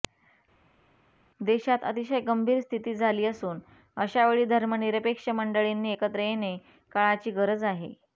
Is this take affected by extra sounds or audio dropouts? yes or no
no